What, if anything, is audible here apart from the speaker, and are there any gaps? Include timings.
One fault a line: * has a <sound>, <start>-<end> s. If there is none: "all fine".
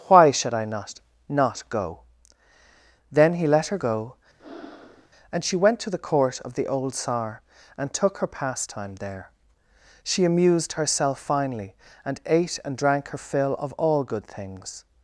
* has a breath, 4.4-5.1 s